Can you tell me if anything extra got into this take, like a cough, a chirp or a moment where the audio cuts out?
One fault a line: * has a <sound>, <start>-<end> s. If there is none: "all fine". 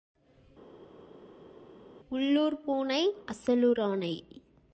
all fine